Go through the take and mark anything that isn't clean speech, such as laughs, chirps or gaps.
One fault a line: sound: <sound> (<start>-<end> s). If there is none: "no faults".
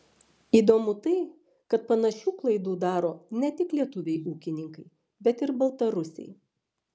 no faults